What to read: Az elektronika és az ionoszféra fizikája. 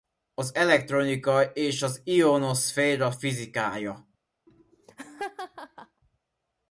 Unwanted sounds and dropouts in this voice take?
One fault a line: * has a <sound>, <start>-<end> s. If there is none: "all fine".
* has a laugh, 4.5-6.0 s